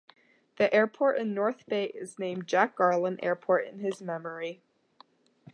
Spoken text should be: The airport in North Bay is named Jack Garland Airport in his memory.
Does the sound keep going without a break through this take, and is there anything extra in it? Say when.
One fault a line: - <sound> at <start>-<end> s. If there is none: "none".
none